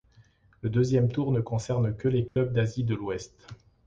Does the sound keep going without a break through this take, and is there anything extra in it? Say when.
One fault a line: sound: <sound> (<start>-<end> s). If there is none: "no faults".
sound: dropout (2.3-2.4 s)